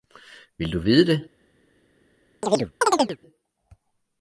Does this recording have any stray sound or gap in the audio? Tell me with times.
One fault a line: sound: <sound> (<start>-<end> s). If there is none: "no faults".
sound: chirp (2.4-3.2 s)